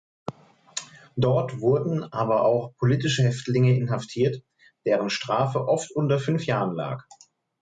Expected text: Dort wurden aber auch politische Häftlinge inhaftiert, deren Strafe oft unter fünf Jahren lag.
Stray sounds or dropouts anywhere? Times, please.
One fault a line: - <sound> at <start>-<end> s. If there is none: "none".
none